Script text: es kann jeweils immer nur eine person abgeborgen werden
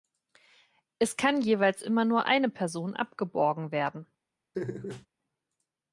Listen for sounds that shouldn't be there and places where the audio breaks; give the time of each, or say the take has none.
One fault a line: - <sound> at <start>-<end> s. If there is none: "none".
- laugh at 4.5-5.1 s